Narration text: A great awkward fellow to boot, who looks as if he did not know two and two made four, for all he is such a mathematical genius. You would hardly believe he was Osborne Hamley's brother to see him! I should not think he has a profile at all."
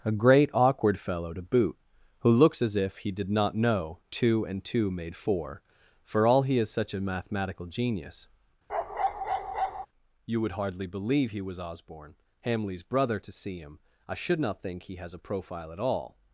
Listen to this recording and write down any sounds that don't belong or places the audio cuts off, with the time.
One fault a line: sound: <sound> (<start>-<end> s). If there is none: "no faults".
sound: bark (8.7-9.9 s)